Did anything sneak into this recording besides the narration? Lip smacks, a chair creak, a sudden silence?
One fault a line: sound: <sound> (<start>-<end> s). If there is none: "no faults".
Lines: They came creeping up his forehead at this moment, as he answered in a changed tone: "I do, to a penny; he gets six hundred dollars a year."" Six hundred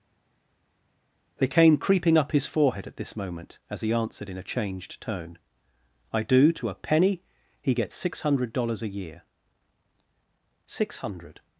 no faults